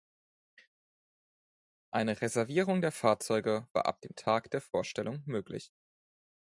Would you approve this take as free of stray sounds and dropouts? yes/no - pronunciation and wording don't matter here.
yes